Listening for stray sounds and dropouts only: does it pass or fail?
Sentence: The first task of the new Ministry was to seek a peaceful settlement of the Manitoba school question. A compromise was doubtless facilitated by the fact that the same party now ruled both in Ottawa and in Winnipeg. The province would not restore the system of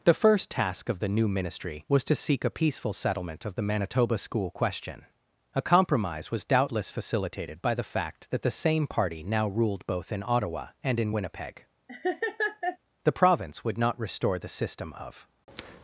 fail